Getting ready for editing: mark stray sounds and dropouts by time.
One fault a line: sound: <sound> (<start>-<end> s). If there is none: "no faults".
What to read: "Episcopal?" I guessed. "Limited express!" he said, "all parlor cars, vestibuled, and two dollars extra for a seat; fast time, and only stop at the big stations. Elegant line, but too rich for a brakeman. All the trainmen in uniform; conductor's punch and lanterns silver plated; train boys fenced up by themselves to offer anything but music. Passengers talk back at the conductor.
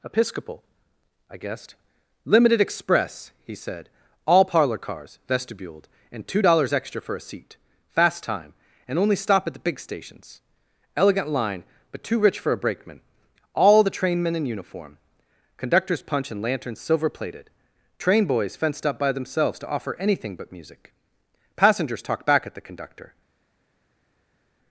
no faults